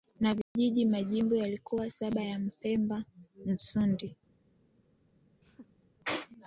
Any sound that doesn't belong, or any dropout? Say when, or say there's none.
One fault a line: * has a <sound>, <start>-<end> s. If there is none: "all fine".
* has a dropout, 0.4-0.6 s
* has a laugh, 5.4-5.9 s